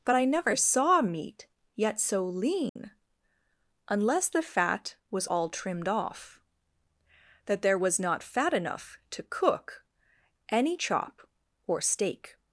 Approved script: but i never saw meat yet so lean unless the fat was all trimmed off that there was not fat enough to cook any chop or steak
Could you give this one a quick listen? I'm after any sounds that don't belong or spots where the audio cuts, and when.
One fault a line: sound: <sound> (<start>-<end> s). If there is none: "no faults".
sound: dropout (2.7-2.8 s)